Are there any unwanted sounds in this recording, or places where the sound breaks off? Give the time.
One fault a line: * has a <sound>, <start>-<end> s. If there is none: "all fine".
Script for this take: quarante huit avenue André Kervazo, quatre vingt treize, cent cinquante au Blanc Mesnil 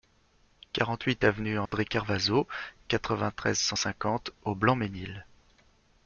* has a dropout, 1.7-1.7 s